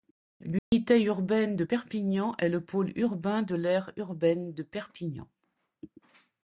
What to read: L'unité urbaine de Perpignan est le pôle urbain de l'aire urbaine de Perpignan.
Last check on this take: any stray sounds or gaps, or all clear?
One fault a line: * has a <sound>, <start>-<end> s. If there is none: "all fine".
* has a dropout, 0.6-0.7 s